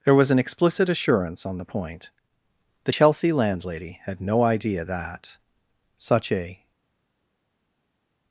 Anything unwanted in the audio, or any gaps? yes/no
no